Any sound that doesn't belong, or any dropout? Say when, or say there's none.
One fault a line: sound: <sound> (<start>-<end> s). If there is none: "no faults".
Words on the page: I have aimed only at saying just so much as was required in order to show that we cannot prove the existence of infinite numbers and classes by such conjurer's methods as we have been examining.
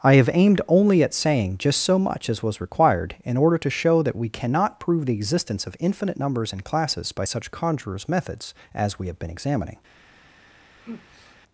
sound: sigh (10.7-11.4 s)